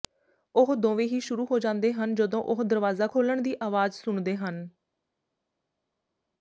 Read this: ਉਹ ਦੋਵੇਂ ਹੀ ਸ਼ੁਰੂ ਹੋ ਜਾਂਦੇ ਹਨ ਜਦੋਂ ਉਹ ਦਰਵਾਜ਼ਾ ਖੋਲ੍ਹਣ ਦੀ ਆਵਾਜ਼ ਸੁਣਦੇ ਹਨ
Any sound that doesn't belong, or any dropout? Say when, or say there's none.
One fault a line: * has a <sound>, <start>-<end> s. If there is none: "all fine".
all fine